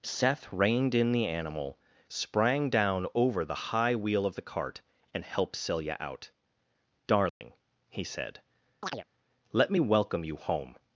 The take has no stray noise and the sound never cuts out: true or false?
false